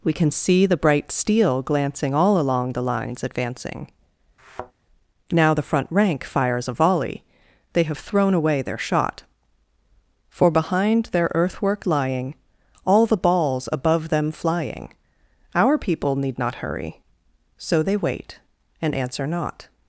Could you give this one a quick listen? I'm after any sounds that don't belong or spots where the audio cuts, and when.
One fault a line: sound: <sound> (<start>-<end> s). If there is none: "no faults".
sound: thud (4.4-4.7 s)